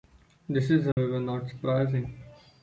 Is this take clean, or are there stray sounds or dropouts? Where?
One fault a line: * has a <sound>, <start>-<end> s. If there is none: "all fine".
* has a dropout, 0.9-1.0 s